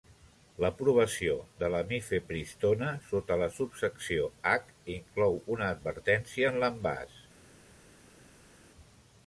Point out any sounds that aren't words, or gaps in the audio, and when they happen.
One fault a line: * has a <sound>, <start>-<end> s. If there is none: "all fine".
all fine